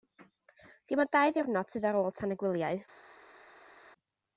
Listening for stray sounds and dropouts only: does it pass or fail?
pass